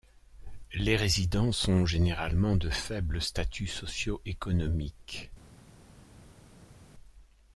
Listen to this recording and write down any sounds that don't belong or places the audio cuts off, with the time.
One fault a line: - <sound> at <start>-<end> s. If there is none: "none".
none